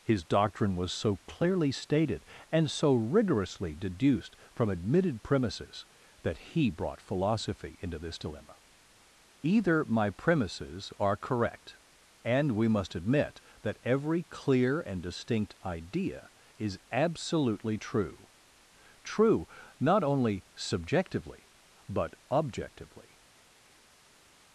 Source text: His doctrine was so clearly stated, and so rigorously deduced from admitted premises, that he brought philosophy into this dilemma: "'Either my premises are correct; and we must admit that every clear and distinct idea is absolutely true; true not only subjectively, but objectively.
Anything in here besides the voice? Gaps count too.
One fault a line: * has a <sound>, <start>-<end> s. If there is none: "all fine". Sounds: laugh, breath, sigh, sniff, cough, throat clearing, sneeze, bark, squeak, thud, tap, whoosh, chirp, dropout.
all fine